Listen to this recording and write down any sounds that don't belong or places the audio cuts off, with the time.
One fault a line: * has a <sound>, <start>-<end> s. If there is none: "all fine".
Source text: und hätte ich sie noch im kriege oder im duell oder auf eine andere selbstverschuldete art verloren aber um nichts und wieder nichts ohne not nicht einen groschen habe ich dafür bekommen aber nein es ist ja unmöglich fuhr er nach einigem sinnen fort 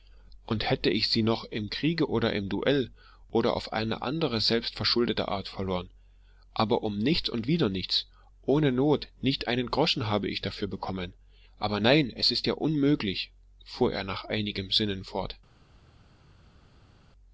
all fine